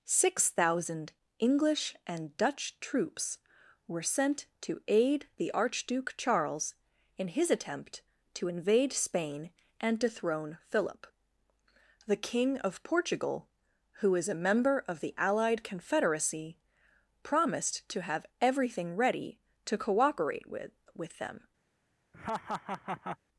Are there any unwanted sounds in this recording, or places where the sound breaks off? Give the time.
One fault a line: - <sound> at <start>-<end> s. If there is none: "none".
- laugh at 22.1-23.2 s